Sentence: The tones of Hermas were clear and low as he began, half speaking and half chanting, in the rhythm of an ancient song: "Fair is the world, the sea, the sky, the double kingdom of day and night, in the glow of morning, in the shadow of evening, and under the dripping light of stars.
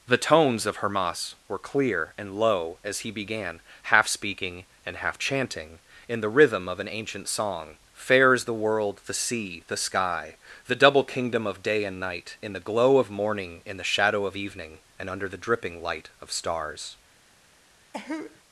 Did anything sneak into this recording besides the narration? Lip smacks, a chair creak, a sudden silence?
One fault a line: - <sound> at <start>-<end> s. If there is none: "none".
- cough at 17.9-18.4 s